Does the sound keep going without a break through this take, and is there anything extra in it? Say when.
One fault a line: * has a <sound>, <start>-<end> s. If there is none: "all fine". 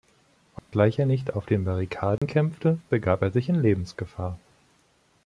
* has a dropout, 0.6-0.7 s
* has a dropout, 2.2-2.2 s